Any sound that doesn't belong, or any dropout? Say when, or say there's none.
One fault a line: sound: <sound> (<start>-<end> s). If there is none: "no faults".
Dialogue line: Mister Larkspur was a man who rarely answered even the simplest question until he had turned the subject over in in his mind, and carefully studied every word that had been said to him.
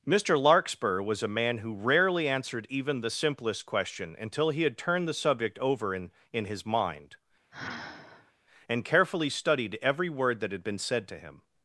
sound: sigh (7.5-8.3 s)